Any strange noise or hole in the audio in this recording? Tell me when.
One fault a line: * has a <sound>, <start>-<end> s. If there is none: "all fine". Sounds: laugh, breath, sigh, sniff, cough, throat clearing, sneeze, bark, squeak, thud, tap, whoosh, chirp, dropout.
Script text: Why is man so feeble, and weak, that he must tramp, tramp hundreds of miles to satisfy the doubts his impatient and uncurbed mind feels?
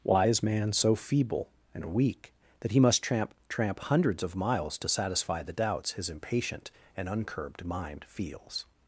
all fine